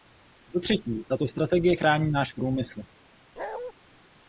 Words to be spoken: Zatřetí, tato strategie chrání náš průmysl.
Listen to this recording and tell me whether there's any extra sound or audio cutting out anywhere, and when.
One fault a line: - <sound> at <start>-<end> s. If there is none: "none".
- bark at 3.4-3.7 s